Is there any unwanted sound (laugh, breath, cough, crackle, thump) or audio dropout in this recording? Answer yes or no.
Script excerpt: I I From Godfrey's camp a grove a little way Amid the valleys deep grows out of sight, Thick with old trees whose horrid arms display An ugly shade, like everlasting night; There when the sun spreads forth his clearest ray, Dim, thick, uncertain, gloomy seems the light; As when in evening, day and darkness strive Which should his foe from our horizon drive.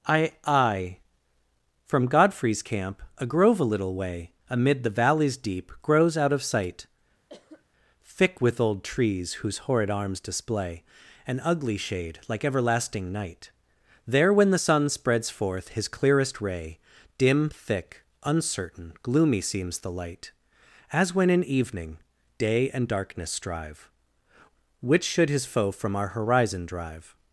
yes